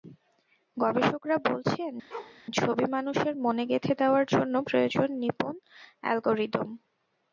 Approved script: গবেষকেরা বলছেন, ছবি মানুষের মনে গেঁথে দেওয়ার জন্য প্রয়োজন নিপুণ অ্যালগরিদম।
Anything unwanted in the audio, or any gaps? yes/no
yes